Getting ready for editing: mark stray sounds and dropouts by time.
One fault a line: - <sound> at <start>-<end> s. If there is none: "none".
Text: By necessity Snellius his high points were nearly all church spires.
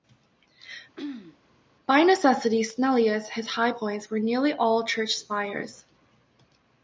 - throat clearing at 1.0-1.4 s